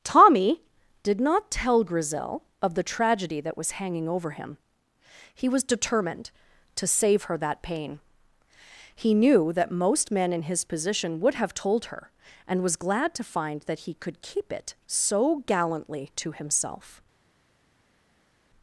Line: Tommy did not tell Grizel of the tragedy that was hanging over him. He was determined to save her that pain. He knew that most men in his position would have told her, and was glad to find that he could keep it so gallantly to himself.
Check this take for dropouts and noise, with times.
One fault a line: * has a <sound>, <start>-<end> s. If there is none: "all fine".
all fine